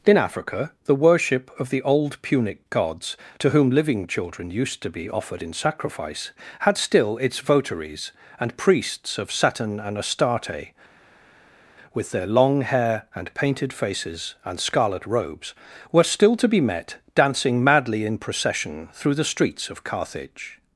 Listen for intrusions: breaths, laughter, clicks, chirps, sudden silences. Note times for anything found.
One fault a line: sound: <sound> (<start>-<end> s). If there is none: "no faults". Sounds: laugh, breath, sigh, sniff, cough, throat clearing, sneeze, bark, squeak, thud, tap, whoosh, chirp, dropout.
no faults